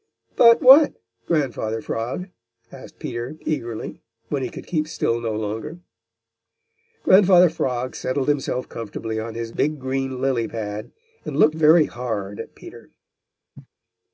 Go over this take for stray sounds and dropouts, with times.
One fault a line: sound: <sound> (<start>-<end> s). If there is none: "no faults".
sound: cough (13.5-13.7 s)